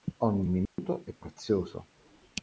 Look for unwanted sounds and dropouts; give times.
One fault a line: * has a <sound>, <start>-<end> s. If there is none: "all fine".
* has a dropout, 0.7-0.8 s